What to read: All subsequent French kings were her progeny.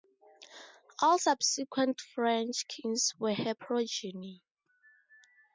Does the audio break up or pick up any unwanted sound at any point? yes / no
no